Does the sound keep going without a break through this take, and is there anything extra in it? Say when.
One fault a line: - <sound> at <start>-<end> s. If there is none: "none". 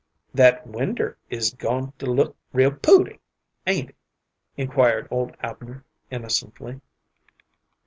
none